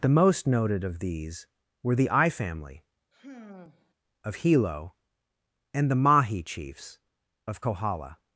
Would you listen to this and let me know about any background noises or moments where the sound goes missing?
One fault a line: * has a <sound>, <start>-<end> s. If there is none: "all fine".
* has a sigh, 3.1-3.9 s